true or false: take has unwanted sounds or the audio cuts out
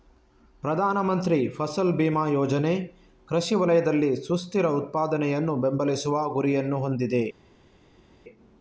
false